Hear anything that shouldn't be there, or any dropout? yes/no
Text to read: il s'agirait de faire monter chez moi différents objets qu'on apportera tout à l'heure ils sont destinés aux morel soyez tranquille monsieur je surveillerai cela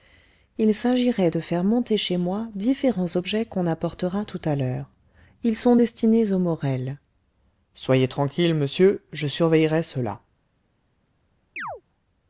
yes